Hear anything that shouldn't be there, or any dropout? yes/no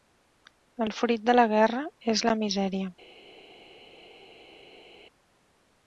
no